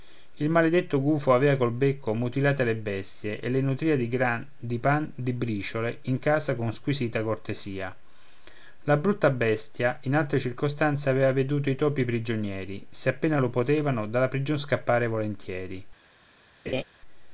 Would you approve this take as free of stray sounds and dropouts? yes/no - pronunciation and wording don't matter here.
no